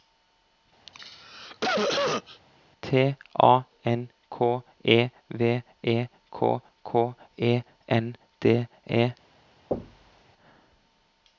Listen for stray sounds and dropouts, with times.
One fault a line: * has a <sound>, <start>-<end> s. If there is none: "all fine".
* has a cough, 0.9-2.4 s
* has a thud, 9.7-10.2 s